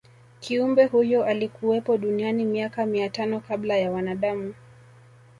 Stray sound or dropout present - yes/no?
no